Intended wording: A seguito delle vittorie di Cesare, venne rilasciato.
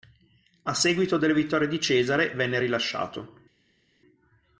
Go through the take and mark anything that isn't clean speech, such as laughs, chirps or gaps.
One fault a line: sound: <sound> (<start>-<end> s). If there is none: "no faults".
no faults